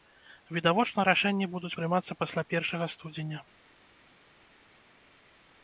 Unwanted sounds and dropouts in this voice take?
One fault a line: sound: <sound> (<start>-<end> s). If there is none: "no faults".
no faults